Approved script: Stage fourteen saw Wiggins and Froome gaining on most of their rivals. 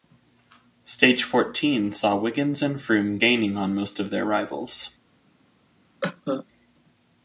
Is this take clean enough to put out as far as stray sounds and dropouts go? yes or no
no